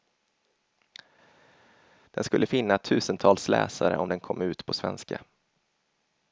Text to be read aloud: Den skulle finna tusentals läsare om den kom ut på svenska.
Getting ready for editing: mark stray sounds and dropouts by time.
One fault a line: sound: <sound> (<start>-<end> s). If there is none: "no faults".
no faults